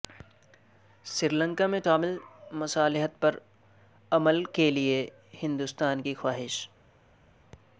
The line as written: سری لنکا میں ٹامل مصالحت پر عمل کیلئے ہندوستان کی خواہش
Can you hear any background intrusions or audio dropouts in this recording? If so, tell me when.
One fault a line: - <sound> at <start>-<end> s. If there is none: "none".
none